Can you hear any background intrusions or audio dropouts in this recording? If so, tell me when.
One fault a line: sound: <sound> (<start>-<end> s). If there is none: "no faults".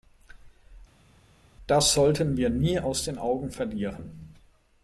no faults